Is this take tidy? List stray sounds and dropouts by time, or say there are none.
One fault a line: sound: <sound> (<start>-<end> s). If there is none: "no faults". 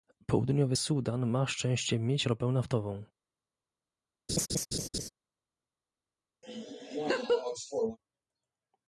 sound: laugh (4.3-5.1 s)
sound: laugh (6.4-8.0 s)